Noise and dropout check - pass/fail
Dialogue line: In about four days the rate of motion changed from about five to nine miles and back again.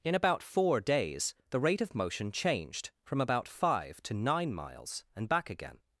pass